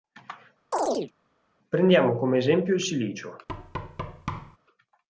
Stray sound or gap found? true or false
true